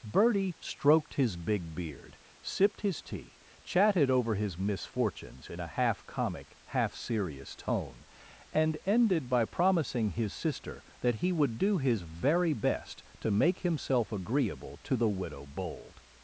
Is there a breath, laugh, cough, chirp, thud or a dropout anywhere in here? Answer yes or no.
no